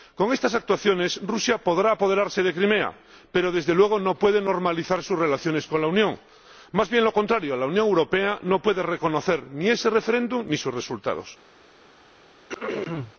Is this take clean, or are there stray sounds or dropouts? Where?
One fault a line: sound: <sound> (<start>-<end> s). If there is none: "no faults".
sound: throat clearing (12.5-13.1 s)